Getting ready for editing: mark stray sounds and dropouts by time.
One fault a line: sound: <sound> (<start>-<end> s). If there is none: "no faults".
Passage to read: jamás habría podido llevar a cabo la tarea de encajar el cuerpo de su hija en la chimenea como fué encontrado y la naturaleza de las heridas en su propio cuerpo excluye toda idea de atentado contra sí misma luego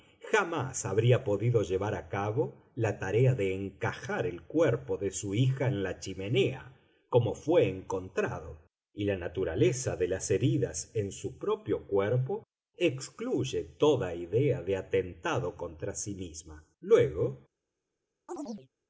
sound: chirp (18.3-18.7 s)